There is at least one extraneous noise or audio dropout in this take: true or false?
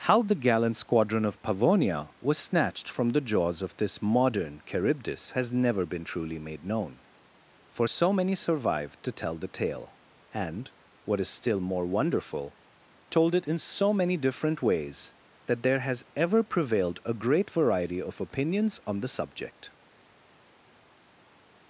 false